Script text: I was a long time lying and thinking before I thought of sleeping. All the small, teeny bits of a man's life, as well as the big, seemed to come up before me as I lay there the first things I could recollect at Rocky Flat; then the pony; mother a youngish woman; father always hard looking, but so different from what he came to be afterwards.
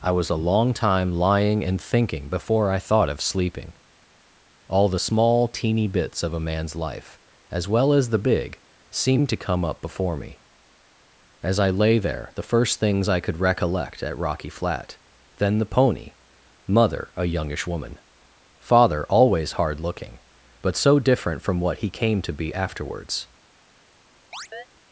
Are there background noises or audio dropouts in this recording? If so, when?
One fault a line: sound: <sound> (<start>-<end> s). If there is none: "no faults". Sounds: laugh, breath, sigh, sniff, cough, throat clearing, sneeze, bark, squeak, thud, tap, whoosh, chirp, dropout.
sound: chirp (24.3-24.7 s)